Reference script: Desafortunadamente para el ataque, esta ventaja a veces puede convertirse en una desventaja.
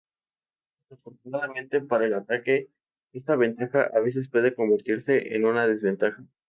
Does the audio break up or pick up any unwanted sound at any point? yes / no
no